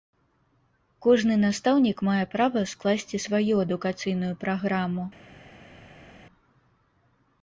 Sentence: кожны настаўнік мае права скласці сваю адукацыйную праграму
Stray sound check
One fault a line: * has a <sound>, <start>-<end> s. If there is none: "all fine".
all fine